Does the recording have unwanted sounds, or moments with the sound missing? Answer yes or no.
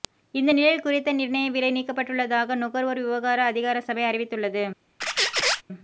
yes